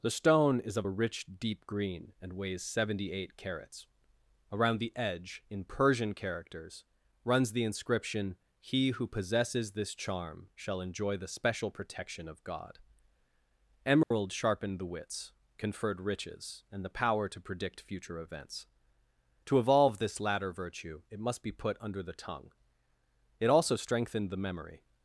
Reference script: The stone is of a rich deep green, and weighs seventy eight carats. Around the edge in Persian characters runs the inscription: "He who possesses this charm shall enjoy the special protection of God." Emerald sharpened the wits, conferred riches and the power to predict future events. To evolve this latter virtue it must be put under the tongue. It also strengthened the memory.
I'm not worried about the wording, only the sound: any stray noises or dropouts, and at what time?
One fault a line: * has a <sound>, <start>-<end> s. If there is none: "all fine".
* has a dropout, 14.0-14.1 s